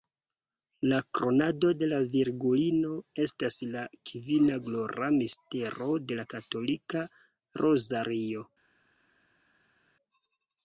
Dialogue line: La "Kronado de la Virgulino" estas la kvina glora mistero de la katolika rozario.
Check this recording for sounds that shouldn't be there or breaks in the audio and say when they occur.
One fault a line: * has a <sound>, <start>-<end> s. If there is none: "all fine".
all fine